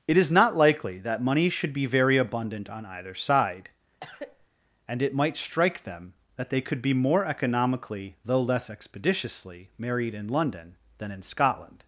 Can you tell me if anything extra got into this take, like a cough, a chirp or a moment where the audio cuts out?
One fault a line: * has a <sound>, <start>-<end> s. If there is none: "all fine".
* has a cough, 4.0-4.5 s